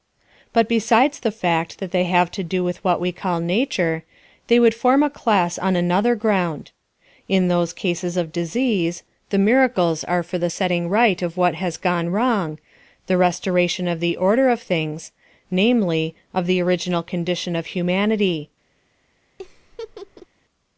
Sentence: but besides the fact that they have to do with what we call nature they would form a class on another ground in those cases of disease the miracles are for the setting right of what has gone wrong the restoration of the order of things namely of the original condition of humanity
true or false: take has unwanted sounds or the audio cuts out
true